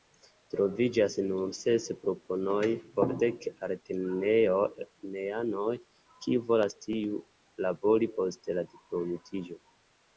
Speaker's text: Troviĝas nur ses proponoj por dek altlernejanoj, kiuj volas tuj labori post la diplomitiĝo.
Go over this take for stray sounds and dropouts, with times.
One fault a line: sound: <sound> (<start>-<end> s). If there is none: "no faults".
no faults